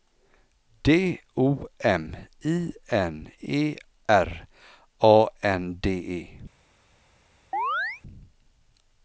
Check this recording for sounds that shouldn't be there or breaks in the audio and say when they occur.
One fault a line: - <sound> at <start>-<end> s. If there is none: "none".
- chirp at 7.5-8.0 s